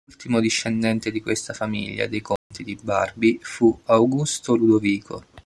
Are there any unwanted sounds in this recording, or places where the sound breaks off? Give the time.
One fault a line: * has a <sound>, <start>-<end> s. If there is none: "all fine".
* has a dropout, 2.4-2.5 s